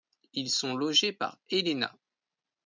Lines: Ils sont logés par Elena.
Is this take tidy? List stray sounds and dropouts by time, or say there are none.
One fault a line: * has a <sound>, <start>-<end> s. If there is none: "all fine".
all fine